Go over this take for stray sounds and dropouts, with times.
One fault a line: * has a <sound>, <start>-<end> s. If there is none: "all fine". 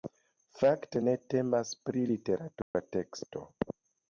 * has a dropout, 2.6-2.7 s